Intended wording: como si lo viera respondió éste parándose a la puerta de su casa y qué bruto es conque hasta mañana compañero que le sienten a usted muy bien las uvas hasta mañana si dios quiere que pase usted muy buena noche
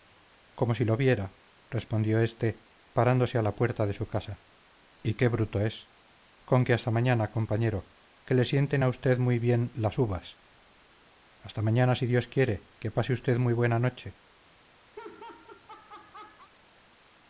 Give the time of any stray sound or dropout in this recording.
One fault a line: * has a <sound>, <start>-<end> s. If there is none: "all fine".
* has a laugh, 15.0-16.5 s